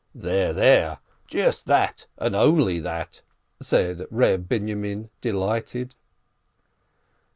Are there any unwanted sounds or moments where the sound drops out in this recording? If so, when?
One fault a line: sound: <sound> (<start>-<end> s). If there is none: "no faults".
no faults